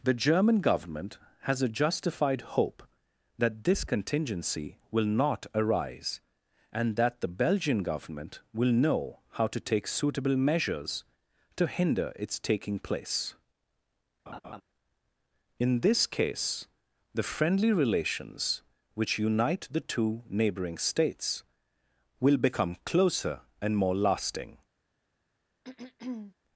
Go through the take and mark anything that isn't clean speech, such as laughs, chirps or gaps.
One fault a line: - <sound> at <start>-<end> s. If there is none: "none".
- laugh at 14.3-14.6 s
- throat clearing at 25.6-26.3 s